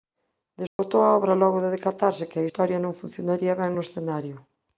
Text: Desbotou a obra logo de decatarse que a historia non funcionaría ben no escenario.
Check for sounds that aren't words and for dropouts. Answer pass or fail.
fail